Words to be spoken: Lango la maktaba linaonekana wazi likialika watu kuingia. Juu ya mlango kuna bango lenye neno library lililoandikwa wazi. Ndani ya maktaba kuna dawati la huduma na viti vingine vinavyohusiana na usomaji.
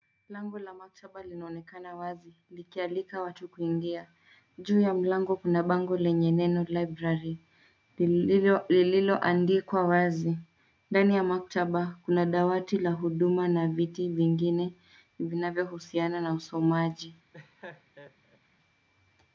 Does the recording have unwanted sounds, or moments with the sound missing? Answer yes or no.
yes